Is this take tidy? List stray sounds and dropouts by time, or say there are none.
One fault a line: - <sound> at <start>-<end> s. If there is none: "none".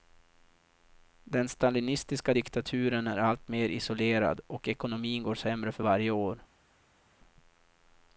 none